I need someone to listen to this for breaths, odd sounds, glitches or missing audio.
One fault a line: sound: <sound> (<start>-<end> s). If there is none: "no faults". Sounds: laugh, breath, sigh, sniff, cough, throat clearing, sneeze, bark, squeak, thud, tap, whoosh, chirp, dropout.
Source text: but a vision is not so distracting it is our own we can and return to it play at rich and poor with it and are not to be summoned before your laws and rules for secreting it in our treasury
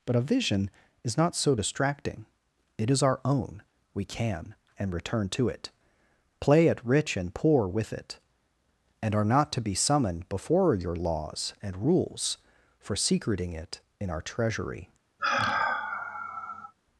sound: sigh (15.2-16.7 s)